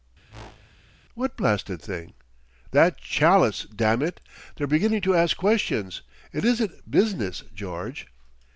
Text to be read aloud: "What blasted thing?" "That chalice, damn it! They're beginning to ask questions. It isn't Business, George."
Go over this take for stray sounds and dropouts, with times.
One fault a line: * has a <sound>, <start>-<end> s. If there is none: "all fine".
* has a whoosh, 0.3-0.8 s